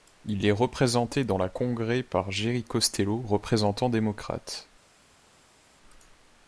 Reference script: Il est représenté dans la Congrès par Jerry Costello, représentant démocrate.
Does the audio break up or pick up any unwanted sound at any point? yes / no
no